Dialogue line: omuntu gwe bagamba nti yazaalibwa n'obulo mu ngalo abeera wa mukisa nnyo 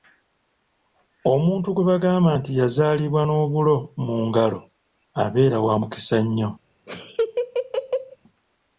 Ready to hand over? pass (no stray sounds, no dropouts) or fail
fail